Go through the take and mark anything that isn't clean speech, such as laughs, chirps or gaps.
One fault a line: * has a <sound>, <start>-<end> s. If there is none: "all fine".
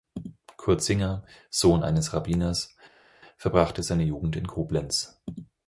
all fine